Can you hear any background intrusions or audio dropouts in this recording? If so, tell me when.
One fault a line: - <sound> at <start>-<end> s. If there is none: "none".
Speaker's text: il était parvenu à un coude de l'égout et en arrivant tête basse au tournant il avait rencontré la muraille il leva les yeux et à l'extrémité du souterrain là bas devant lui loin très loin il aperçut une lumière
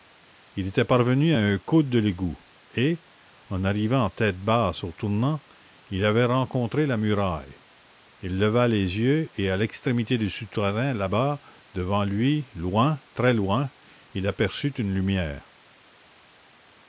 none